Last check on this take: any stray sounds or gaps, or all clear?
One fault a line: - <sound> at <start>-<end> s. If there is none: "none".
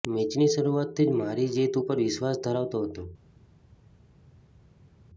none